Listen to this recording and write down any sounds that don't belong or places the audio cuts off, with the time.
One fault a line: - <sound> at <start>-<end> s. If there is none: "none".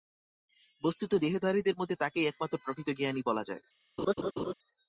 - laugh at 4.0-4.5 s